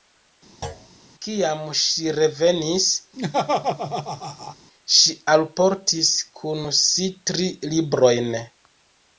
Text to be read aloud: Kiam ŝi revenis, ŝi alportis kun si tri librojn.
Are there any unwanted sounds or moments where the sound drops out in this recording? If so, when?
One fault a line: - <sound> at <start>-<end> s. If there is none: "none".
- thud at 0.6-0.9 s
- laugh at 3.2-4.6 s